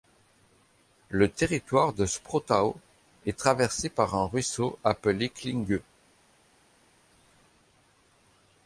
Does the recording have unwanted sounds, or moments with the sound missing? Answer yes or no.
no